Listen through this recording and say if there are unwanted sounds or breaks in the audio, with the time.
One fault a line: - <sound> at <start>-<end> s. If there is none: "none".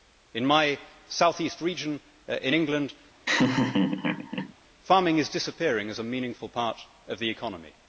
- laugh at 3.3-4.5 s